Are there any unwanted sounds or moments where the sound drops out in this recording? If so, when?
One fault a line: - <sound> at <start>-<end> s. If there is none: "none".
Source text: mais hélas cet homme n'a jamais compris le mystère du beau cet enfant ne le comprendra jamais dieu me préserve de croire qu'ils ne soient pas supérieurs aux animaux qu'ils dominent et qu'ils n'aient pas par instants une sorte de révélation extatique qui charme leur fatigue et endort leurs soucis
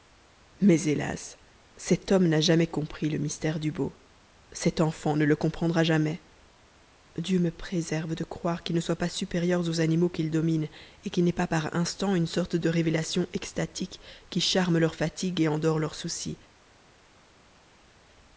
none